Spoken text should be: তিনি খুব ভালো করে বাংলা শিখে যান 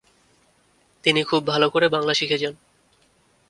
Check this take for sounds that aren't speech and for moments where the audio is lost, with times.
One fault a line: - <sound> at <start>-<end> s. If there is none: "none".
none